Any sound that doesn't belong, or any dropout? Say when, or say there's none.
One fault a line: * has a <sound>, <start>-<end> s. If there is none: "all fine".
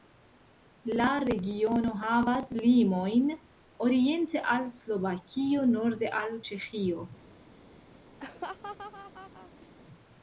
* has a laugh, 8.2-9.7 s